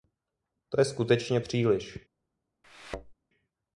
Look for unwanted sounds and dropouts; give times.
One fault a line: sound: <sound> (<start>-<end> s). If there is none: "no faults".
sound: thud (2.6-3.1 s)